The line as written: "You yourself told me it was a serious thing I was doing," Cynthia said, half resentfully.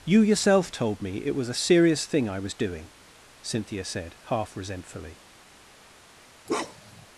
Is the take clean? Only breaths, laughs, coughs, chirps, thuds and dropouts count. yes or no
no